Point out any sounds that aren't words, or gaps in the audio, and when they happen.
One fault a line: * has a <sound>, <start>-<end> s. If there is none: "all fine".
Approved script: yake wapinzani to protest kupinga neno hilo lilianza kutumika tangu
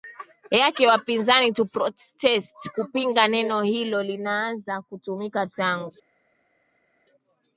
all fine